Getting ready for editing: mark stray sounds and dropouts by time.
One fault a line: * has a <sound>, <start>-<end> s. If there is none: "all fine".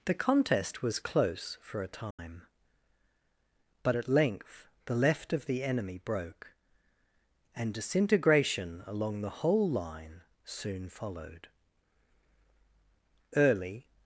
* has a dropout, 2.1-2.2 s